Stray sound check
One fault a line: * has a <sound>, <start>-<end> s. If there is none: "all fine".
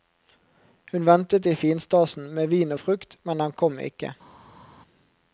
all fine